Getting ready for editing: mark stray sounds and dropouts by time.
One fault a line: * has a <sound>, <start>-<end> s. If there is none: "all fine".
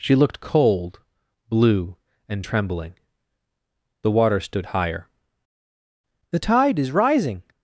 all fine